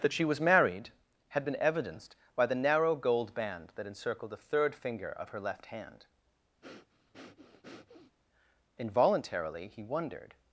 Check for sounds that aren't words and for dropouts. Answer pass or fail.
fail